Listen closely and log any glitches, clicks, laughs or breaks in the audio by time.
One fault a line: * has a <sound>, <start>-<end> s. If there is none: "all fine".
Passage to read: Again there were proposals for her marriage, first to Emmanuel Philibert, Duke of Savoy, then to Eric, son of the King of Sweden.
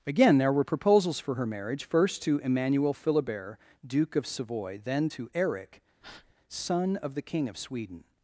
* has a breath, 6.0-6.3 s